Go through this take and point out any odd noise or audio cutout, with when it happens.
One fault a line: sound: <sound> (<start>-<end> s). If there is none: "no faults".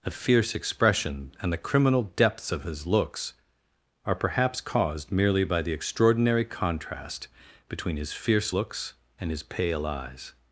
no faults